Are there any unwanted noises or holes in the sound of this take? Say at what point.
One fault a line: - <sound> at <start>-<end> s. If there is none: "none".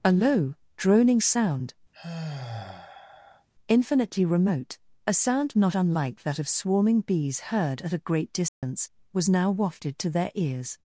- sigh at 1.9-3.5 s
- dropout at 8.5-8.6 s